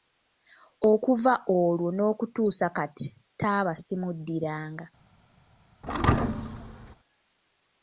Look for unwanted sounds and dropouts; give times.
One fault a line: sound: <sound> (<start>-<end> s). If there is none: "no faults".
sound: thud (5.8-7.0 s)